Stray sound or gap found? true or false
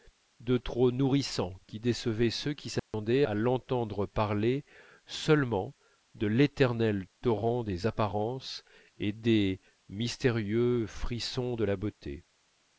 true